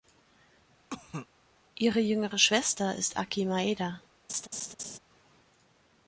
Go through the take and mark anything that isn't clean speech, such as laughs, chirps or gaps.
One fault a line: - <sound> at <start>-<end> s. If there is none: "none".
- cough at 0.9-1.3 s
- laugh at 4.3-5.0 s